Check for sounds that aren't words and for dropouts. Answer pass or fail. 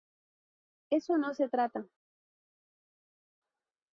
pass